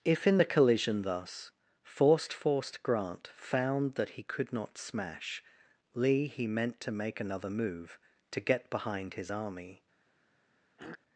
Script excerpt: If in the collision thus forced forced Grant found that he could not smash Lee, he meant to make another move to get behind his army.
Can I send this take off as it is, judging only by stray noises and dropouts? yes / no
no